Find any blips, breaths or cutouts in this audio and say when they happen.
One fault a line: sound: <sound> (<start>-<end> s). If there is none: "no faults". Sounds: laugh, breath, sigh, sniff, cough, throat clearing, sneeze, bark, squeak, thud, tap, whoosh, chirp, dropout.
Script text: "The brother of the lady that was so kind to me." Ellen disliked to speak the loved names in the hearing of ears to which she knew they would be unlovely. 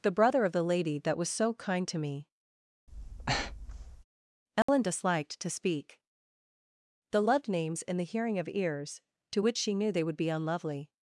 sound: breath (2.9-4.0 s)
sound: dropout (4.6-4.7 s)